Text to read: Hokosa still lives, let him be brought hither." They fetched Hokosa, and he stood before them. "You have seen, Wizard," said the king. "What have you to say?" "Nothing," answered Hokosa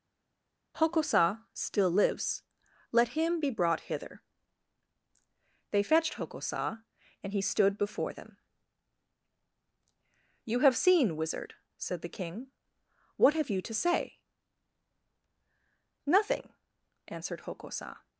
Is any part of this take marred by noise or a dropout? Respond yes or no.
no